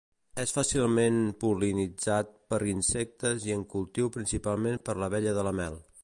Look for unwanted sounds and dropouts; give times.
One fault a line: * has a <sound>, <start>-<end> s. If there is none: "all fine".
* has a dropout, 4.8-4.8 s